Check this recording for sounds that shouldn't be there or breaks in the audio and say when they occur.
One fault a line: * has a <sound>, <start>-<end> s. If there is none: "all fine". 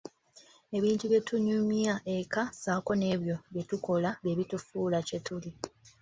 all fine